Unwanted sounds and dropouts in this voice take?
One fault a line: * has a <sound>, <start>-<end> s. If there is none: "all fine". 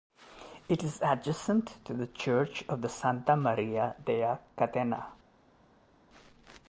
all fine